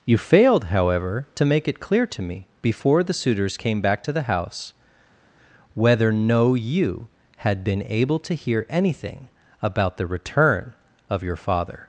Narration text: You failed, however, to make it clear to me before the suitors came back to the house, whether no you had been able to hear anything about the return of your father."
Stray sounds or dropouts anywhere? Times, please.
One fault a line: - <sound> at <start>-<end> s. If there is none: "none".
none